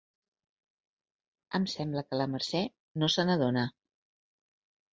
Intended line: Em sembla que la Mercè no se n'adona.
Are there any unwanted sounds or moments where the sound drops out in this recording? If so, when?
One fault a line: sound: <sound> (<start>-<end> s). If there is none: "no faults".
no faults